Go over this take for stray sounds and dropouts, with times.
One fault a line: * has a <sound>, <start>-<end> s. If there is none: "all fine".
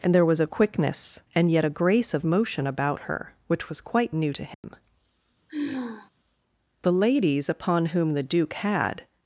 * has a dropout, 4.5-4.6 s
* has a sigh, 5.5-6.1 s